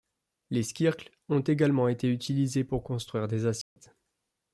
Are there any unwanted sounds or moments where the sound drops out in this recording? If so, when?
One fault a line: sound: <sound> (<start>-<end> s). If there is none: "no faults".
sound: dropout (3.6-3.8 s)